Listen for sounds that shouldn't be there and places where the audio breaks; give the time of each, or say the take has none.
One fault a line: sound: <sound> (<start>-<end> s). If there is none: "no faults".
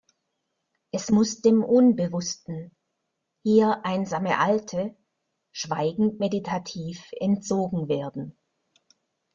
no faults